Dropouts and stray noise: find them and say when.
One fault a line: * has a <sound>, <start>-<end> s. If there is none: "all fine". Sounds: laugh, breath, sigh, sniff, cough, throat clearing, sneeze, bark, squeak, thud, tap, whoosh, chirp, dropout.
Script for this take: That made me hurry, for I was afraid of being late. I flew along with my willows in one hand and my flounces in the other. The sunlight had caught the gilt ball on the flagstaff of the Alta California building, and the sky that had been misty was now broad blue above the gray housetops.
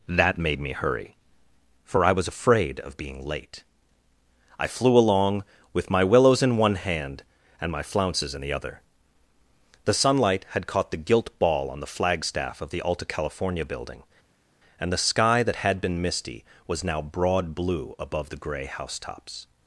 all fine